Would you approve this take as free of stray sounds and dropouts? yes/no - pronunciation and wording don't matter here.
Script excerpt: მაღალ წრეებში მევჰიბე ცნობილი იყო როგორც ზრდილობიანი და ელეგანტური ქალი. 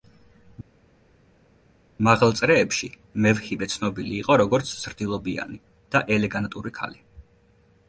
yes